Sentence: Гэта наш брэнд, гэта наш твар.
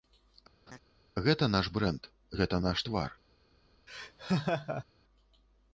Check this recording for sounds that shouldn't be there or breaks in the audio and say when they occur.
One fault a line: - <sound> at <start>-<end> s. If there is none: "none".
- laugh at 0.7-0.8 s
- laugh at 3.9-4.8 s